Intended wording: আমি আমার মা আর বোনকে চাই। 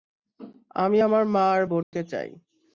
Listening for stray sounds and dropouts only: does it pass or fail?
fail